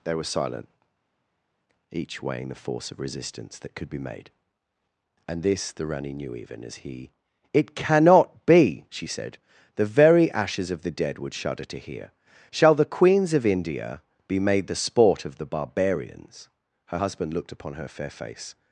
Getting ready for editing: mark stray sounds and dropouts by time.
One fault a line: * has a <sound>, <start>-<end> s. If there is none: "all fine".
all fine